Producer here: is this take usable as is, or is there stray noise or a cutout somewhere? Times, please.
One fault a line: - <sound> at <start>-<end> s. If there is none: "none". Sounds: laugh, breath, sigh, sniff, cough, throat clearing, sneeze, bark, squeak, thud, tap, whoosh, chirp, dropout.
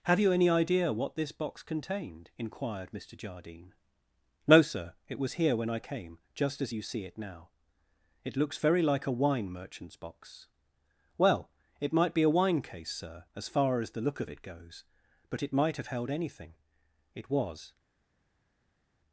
none